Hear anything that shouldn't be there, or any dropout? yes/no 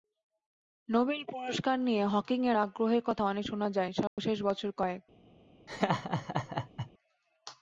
yes